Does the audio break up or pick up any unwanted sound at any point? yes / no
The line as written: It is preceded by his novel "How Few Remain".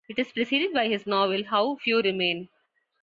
no